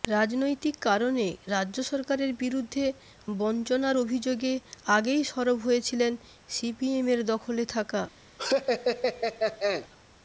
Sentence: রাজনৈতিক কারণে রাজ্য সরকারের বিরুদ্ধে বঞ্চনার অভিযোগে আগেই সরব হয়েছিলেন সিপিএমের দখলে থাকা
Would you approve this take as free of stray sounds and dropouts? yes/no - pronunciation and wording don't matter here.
no